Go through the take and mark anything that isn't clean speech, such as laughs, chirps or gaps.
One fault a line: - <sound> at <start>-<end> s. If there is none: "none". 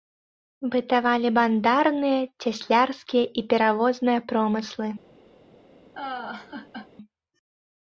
- laugh at 6.0-6.9 s